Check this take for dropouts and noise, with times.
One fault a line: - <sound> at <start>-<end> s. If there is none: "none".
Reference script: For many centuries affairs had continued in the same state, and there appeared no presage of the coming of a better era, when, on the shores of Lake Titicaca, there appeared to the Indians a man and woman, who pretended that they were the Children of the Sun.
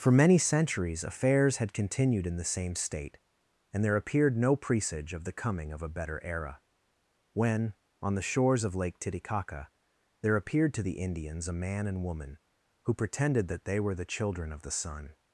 none